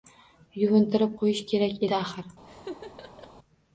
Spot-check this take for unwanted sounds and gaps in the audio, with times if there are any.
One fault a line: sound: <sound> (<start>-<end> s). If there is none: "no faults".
sound: laugh (2.4-3.3 s)